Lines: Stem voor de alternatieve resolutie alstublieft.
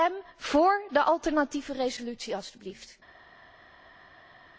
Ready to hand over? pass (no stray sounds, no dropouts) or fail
pass